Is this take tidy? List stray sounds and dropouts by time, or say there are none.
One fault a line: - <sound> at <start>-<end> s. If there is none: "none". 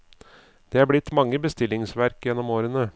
none